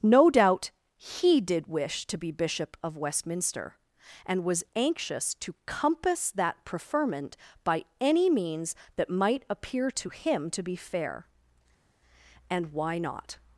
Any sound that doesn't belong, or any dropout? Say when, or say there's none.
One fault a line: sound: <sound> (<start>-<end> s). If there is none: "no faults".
no faults